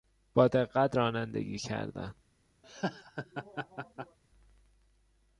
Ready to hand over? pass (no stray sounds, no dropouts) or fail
fail